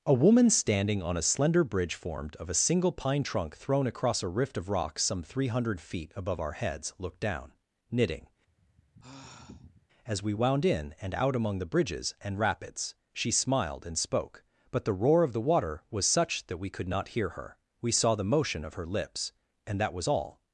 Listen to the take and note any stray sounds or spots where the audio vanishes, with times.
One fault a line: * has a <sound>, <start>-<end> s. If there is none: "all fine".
* has a sigh, 8.5-9.9 s